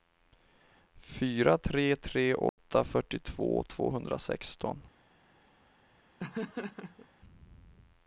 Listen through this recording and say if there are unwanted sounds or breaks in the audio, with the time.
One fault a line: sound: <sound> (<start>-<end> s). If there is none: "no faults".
sound: dropout (2.5-2.6 s)
sound: laugh (6.2-7.1 s)